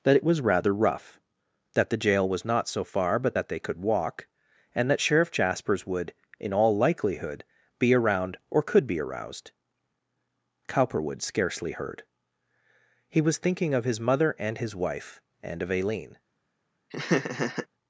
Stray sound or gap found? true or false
true